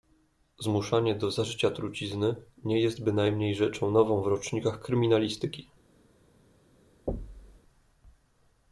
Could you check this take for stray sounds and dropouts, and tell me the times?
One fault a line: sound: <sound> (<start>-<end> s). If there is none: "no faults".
sound: thud (7.1-7.6 s)